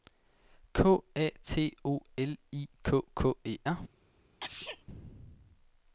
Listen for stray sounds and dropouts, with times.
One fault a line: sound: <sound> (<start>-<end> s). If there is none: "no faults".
sound: sneeze (4.4-4.8 s)